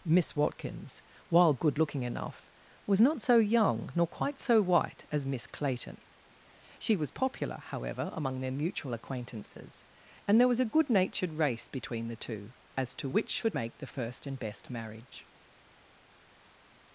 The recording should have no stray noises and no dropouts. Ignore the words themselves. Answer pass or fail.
pass